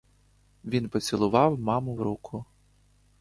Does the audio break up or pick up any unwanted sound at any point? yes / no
no